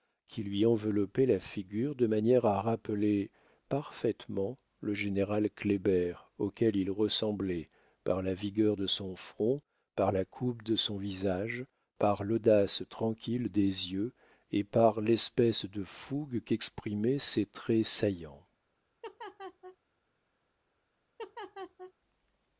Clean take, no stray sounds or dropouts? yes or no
no